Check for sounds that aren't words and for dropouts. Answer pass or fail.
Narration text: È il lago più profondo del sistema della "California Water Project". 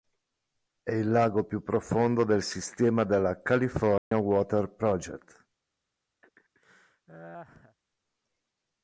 fail